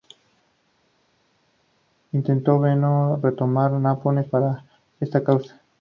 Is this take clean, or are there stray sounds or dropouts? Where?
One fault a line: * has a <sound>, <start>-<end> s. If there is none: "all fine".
all fine